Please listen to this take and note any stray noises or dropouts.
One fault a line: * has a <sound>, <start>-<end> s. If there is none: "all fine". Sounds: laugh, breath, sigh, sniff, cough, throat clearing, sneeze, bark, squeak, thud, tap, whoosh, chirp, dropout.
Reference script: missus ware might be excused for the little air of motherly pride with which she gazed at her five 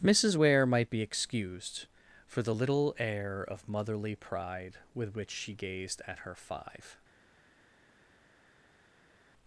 all fine